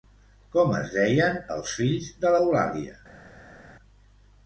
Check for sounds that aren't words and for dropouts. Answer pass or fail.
pass